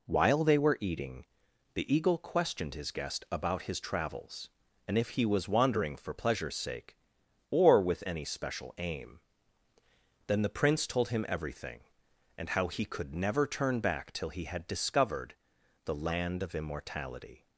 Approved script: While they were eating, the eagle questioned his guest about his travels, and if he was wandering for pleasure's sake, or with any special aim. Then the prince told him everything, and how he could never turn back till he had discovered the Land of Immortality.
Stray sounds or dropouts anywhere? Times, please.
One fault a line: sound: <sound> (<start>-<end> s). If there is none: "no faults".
no faults